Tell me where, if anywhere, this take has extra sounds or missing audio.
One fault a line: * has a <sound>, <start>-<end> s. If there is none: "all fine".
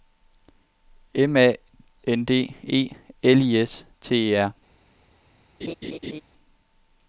* has a laugh, 5.6-6.2 s